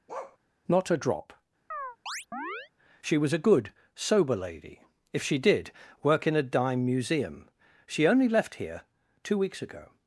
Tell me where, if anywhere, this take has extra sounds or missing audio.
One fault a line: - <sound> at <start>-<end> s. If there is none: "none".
- bark at 0.1-0.4 s
- chirp at 1.7-2.7 s